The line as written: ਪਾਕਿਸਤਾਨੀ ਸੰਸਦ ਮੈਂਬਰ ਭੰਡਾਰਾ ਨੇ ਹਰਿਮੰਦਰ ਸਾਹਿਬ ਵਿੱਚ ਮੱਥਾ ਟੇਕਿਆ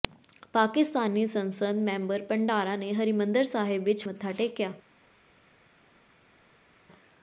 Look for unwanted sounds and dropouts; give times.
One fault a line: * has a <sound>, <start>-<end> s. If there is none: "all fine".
all fine